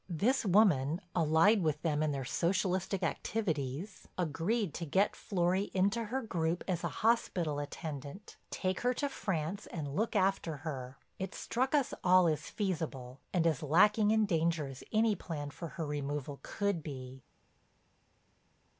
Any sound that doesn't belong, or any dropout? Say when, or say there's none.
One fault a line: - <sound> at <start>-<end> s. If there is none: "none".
none